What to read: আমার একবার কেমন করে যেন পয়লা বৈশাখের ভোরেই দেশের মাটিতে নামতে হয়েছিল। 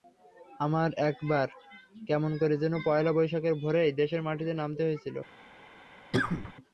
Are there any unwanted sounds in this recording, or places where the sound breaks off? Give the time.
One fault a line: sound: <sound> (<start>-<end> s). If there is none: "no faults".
sound: cough (6.1-6.5 s)